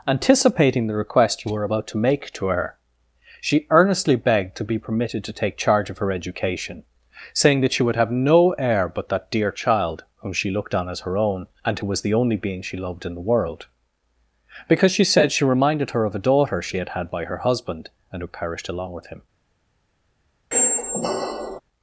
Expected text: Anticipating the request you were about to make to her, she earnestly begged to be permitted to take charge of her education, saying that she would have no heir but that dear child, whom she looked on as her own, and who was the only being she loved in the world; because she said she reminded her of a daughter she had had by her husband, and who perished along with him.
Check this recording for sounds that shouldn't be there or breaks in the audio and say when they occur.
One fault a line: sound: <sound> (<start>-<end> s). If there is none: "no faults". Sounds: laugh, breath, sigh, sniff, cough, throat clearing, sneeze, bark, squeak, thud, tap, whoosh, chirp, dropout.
sound: squeak (20.5-21.6 s)